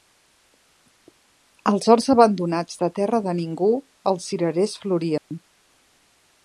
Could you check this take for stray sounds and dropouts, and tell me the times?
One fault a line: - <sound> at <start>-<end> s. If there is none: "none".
- dropout at 5.2-5.3 s